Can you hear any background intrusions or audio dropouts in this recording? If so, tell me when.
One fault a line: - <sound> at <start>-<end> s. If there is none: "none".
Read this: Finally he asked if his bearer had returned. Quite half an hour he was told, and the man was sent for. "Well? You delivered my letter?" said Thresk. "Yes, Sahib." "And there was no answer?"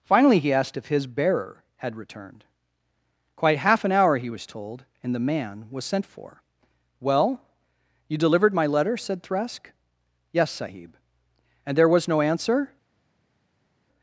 none